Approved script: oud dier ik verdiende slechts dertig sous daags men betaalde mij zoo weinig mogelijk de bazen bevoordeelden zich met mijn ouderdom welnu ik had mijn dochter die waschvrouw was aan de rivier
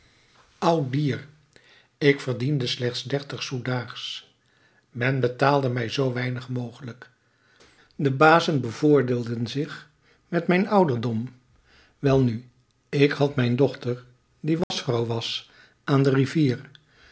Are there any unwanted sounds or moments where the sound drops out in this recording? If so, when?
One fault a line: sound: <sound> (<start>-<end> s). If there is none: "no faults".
sound: dropout (14.6-14.7 s)